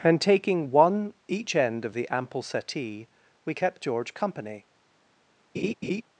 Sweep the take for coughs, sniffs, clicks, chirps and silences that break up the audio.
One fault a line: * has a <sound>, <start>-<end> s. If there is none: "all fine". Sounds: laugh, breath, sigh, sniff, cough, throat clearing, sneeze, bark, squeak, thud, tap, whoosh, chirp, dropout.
* has a laugh, 5.5-6.0 s